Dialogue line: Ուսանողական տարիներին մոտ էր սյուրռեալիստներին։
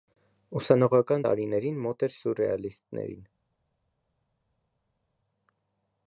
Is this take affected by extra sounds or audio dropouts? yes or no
no